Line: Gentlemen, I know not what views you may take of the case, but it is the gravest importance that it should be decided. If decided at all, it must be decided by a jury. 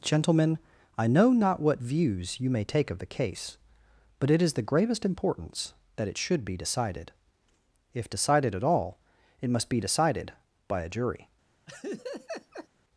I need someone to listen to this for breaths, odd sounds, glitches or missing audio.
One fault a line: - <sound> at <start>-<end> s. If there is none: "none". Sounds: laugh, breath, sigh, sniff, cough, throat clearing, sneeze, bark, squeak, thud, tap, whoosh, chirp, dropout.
- laugh at 11.7-12.7 s